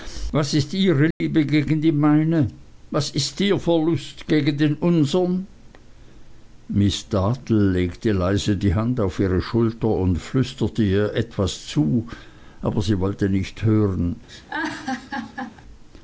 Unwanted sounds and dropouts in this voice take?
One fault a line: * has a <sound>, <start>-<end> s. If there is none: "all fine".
* has a dropout, 1.1-1.2 s
* has a laugh, 14.3-15.6 s